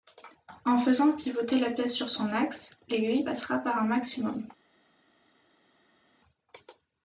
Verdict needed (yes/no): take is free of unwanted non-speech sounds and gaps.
yes